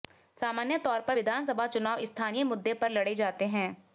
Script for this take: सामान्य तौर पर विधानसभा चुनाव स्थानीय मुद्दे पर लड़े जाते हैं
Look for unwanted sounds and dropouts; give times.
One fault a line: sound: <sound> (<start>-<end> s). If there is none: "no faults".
no faults